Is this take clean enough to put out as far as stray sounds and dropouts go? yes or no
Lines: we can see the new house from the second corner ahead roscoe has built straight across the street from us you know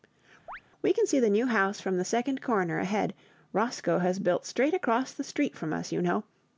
no